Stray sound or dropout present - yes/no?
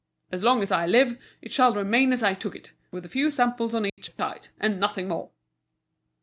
yes